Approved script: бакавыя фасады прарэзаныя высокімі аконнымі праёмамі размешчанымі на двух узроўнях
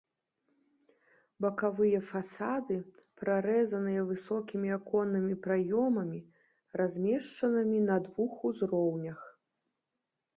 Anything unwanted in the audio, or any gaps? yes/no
no